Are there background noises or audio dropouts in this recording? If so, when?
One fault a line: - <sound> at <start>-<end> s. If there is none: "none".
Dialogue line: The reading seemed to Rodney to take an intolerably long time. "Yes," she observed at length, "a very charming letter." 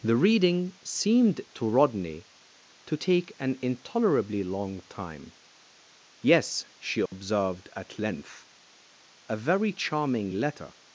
- dropout at 7.1-7.1 s